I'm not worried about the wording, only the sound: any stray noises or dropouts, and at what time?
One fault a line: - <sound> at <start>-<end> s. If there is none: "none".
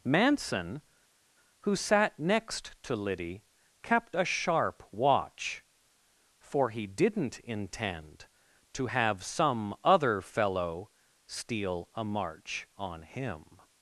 none